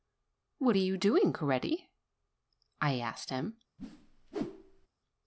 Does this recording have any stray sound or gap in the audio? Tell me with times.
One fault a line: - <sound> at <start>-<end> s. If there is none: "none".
- whoosh at 3.8-4.9 s